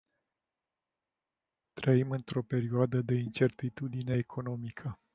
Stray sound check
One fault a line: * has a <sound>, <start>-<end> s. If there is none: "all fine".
all fine